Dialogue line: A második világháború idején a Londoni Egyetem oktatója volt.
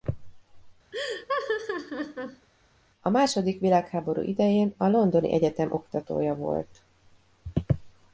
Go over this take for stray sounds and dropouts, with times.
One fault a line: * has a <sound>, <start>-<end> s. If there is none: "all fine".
* has a laugh, 0.9-2.5 s